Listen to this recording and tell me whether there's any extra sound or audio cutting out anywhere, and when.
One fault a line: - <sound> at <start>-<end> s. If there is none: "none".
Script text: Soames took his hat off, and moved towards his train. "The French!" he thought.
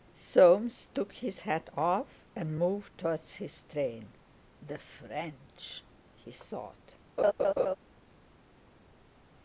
- laugh at 7.2-7.8 s